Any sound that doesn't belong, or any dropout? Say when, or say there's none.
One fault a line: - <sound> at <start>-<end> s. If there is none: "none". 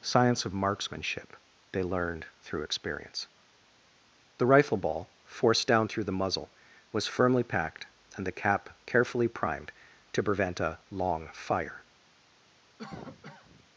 - cough at 12.8-13.7 s